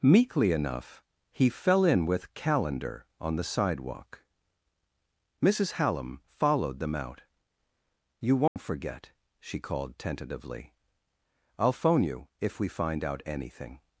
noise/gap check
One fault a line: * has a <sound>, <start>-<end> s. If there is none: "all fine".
* has a dropout, 8.5-8.6 s